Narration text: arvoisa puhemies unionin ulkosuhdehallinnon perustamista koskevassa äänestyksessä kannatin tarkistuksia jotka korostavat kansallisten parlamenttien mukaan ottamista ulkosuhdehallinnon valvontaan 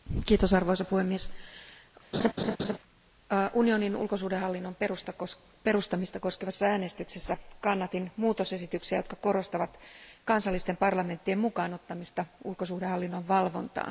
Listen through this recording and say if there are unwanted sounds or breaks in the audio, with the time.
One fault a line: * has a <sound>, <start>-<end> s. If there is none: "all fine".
* has a laugh, 2.1-2.8 s